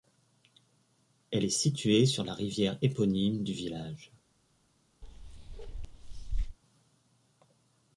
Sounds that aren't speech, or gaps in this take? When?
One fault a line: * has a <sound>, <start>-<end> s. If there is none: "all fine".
* has a bark, 5.0-6.6 s